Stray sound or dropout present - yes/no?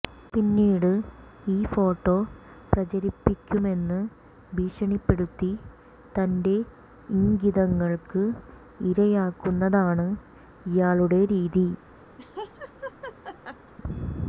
yes